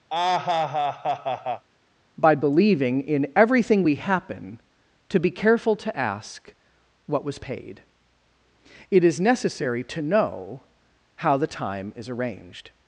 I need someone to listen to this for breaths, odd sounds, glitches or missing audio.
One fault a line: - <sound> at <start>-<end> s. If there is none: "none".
- laugh at 0.1-1.6 s